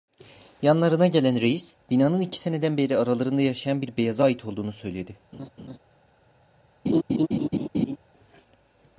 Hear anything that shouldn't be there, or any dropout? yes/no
yes